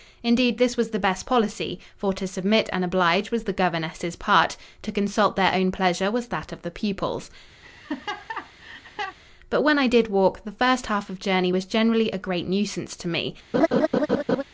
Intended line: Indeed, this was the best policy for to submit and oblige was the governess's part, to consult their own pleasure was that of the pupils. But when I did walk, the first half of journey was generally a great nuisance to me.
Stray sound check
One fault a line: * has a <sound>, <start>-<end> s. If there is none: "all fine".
* has a laugh, 7.6-9.2 s
* has a laugh, 13.5-14.4 s